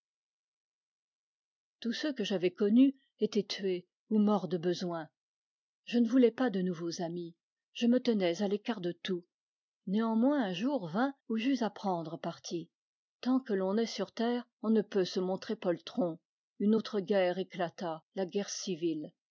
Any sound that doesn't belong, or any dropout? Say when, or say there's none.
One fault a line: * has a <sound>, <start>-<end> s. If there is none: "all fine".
all fine